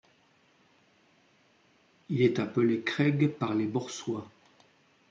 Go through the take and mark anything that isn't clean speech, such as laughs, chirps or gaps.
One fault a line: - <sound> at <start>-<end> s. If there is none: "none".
none